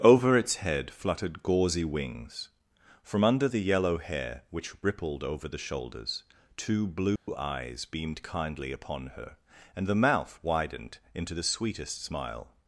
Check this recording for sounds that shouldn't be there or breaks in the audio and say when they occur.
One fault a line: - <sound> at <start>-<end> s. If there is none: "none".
- dropout at 7.2-7.3 s